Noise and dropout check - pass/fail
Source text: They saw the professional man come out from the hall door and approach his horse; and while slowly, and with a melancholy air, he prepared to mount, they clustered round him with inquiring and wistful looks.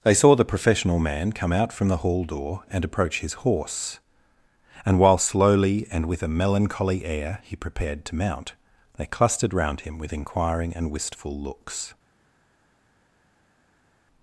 pass